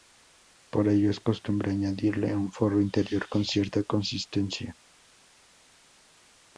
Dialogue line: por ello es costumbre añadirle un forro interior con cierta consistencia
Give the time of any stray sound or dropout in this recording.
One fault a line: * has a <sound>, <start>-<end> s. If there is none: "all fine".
all fine